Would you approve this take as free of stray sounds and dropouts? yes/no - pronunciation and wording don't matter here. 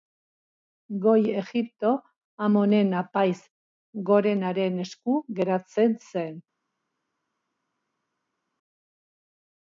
yes